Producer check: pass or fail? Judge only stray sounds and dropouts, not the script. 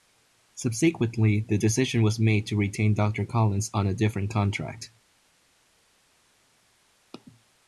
pass